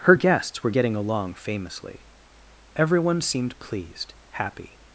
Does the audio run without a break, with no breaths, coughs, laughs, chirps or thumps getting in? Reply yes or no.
yes